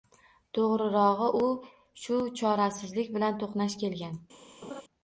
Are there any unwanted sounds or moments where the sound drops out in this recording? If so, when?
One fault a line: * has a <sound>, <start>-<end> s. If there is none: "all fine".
* has a laugh, 4.6-4.8 s